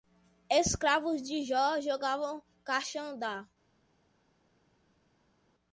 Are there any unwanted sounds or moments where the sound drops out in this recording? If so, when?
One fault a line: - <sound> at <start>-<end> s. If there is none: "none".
none